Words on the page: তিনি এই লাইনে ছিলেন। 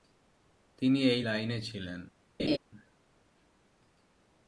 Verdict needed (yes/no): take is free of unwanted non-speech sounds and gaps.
no